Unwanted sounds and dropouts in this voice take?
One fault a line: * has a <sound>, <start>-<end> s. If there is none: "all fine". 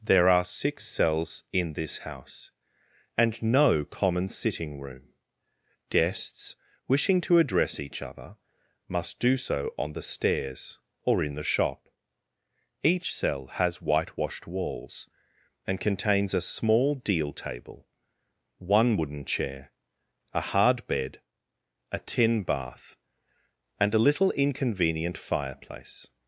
all fine